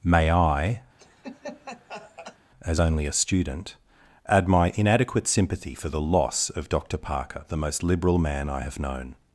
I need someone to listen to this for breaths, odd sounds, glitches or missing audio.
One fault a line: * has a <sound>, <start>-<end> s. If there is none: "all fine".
* has a laugh, 1.0-2.4 s